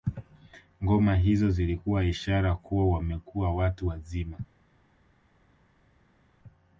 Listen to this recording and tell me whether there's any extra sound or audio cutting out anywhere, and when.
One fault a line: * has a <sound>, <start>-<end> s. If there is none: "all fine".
all fine